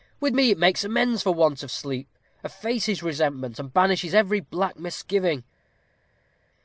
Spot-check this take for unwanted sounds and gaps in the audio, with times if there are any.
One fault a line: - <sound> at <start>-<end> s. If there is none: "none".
none